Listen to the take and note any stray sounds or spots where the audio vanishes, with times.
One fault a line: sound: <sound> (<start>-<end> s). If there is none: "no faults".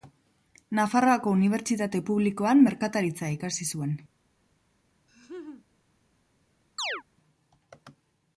sound: laugh (5.1-5.7 s)
sound: chirp (6.8-7.0 s)